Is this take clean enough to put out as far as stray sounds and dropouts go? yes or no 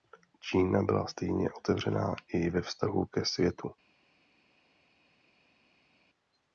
yes